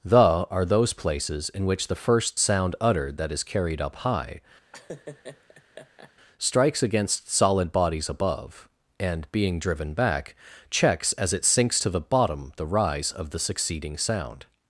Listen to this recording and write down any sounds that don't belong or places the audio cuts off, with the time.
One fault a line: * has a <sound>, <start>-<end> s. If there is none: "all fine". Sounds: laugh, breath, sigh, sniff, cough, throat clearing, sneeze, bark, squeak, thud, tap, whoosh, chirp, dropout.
* has a laugh, 4.7-6.1 s